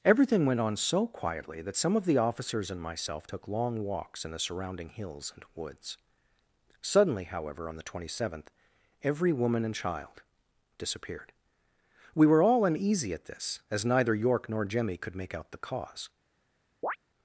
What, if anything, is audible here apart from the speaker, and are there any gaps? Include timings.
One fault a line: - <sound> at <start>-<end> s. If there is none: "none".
- chirp at 16.8-17.0 s